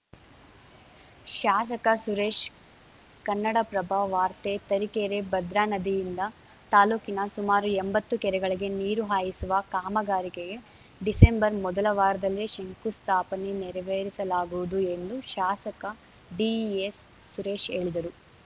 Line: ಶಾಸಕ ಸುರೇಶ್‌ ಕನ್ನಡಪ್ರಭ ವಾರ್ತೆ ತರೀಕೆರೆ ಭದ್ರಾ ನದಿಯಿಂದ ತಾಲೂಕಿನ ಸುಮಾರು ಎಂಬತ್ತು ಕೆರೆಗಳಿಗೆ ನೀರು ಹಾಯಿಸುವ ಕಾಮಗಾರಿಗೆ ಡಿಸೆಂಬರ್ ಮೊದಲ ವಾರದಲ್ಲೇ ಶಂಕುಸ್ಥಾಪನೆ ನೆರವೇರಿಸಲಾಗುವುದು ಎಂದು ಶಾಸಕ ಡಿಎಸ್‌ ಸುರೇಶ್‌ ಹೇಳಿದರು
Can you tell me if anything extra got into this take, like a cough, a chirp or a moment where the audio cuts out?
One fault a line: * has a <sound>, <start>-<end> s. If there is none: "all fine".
all fine